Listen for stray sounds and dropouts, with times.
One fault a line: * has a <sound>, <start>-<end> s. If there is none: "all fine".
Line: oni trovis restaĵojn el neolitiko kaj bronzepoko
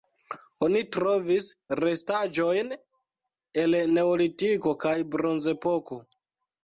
all fine